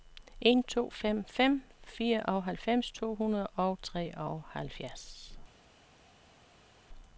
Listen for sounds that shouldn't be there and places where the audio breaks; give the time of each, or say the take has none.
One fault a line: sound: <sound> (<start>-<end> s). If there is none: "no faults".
no faults